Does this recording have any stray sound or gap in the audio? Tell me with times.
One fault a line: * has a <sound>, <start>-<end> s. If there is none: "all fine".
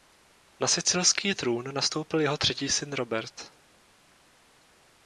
all fine